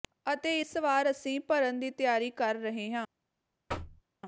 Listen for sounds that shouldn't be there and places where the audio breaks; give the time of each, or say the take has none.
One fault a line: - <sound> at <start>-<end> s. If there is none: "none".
- thud at 3.7-4.0 s